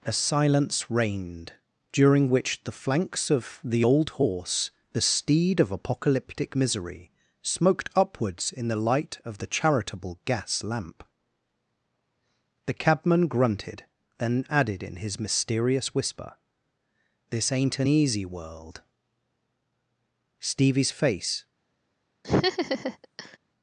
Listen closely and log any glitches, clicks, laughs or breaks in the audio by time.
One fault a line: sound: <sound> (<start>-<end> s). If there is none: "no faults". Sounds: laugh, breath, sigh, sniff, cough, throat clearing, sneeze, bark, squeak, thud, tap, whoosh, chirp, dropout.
sound: laugh (22.2-23.4 s)